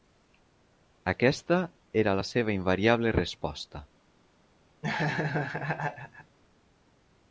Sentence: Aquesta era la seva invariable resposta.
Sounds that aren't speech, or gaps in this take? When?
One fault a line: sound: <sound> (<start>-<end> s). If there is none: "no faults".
sound: laugh (4.8-6.4 s)